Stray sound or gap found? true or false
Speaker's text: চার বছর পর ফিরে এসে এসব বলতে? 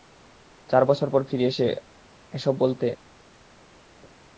false